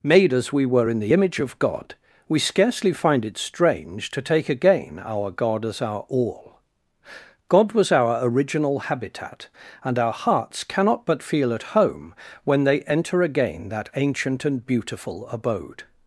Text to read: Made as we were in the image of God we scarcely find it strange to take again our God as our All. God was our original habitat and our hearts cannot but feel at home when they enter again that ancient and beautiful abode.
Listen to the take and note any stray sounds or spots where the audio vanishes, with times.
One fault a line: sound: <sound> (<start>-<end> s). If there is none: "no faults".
no faults